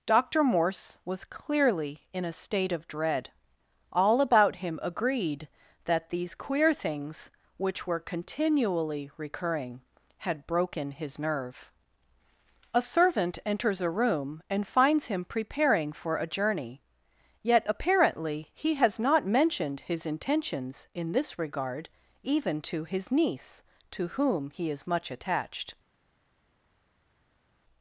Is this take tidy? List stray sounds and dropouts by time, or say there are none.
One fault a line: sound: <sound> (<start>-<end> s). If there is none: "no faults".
no faults